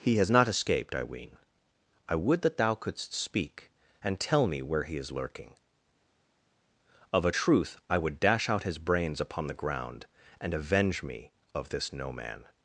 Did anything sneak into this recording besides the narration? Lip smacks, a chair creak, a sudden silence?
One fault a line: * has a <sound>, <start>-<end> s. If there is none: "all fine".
all fine